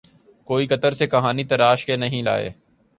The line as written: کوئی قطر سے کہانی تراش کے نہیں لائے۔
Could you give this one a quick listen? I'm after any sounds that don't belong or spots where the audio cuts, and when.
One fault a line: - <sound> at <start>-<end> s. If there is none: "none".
none